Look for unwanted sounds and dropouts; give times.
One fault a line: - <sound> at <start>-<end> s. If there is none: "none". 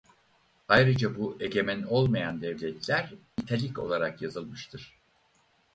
none